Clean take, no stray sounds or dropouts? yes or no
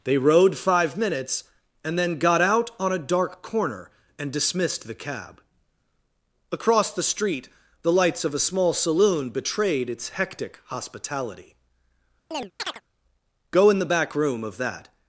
no